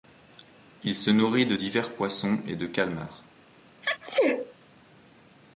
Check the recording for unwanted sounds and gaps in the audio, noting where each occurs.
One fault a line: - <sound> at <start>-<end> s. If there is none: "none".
- sneeze at 3.8-4.5 s